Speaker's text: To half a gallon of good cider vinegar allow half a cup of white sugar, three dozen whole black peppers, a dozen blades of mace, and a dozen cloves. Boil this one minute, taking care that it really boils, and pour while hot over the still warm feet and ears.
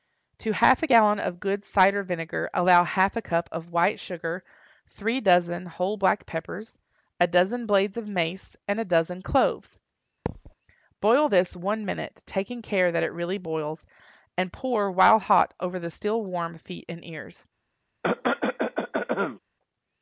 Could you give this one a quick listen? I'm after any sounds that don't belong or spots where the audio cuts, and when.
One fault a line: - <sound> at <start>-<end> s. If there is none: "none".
- thud at 10.3-10.5 s
- cough at 18.0-19.4 s